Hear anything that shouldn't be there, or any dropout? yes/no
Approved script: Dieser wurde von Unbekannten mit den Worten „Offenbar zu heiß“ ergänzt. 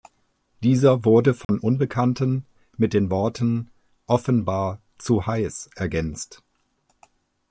yes